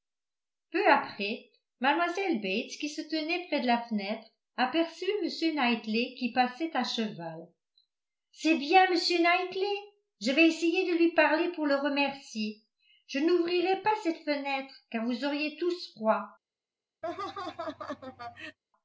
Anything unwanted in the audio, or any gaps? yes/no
yes